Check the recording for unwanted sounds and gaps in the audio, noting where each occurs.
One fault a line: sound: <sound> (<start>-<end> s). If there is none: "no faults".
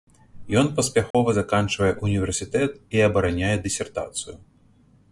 sound: dropout (1.1-1.1 s)